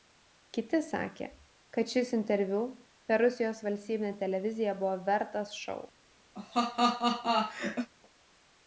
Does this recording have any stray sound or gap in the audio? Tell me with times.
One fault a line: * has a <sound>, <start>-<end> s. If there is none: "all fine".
* has a laugh, 6.3-7.9 s